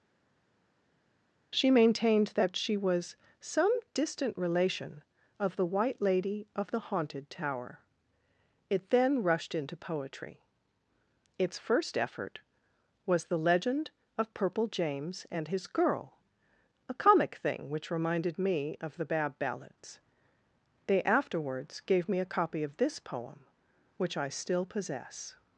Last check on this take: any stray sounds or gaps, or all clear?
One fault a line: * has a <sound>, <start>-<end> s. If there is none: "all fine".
all fine